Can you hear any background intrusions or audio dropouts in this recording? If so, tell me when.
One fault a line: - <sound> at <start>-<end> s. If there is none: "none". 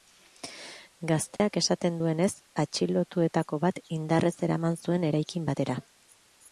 - dropout at 1.4-1.4 s